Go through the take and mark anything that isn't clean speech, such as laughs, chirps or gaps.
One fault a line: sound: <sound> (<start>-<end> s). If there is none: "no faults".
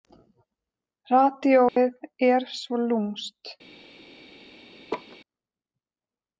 sound: dropout (1.7-1.8 s)
sound: laugh (4.9-5.2 s)